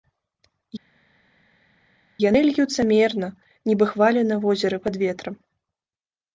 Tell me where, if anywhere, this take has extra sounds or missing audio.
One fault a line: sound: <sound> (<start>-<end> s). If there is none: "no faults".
no faults